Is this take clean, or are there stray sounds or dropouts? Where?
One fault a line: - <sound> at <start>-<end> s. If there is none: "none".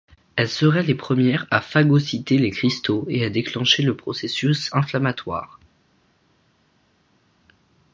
none